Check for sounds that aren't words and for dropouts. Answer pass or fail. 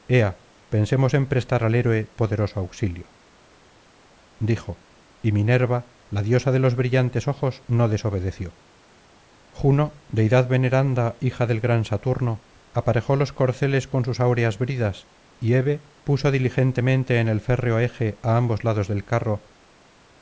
pass